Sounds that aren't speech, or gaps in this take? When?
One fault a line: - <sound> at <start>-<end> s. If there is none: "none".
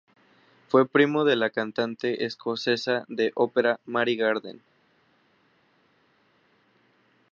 none